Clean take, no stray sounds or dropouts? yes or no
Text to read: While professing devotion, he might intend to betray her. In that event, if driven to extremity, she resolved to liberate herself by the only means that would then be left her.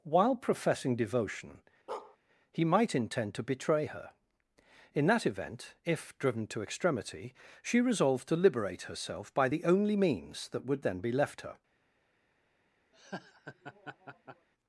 no